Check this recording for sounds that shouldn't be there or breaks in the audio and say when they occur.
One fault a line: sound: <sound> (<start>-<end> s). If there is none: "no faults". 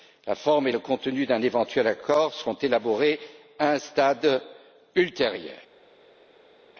no faults